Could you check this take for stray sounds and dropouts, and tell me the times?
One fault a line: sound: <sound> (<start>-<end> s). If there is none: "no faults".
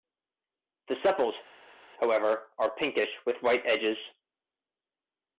no faults